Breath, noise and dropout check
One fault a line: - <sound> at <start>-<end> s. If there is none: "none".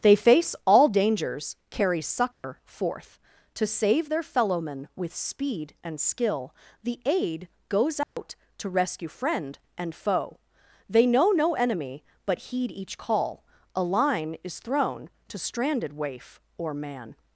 - dropout at 2.3-2.4 s
- dropout at 8.0-8.2 s